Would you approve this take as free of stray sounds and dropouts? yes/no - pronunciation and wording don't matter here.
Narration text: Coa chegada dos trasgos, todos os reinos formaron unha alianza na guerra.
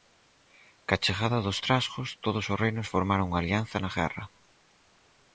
yes